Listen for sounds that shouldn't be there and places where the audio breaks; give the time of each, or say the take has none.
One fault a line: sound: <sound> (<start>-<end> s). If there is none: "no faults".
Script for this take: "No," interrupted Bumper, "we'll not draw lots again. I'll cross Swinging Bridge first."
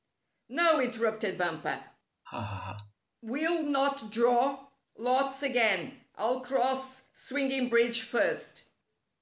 sound: laugh (2.3-2.9 s)